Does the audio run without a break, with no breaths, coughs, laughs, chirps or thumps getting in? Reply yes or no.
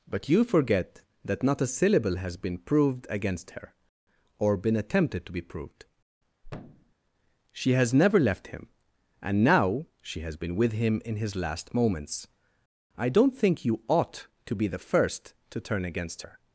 no